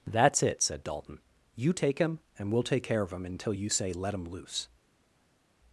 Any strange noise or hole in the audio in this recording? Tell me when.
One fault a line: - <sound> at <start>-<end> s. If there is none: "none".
none